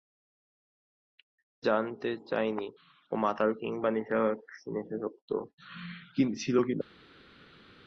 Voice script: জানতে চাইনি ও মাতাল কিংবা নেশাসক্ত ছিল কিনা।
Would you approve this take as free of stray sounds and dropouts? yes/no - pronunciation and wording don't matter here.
yes